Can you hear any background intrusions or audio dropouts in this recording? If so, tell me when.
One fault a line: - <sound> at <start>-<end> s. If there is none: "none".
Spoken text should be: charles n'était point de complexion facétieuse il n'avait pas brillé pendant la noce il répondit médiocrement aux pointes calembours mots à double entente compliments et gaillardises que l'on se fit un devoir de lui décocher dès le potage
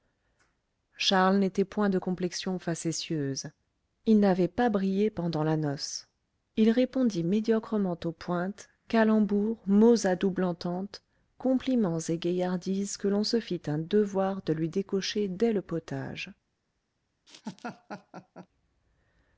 - laugh at 17.3-18.5 s